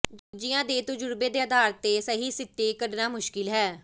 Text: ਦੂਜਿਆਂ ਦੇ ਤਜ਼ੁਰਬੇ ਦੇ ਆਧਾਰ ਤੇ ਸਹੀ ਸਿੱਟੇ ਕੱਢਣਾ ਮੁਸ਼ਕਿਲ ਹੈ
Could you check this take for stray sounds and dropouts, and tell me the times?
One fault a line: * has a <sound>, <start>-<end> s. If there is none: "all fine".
* has a dropout, 0.2-0.3 s